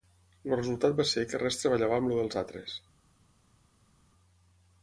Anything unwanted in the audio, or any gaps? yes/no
no